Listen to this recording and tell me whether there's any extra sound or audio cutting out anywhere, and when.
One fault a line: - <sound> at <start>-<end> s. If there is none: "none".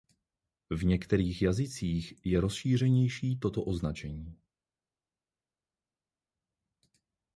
none